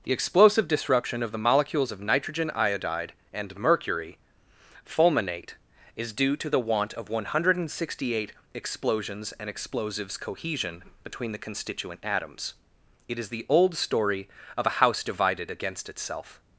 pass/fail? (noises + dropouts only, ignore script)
pass